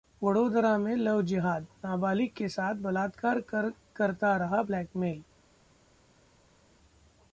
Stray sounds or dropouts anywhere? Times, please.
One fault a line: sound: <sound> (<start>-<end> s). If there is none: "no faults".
no faults